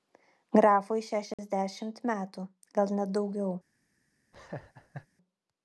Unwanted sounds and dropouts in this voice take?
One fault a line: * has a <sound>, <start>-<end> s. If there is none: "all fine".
* has a dropout, 1.3-1.4 s
* has a laugh, 4.3-5.1 s